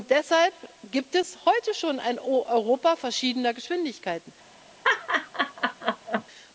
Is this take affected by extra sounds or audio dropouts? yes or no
yes